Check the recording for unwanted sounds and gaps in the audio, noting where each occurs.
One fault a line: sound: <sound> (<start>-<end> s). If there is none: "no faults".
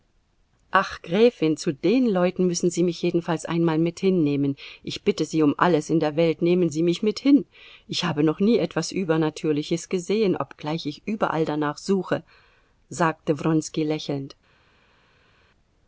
no faults